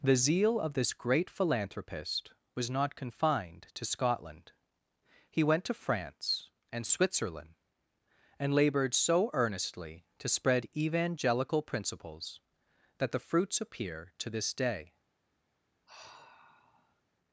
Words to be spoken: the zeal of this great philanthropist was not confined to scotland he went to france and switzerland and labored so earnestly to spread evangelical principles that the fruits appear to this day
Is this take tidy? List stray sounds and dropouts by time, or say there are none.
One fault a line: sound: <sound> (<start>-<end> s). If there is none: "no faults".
sound: sigh (15.9-17.0 s)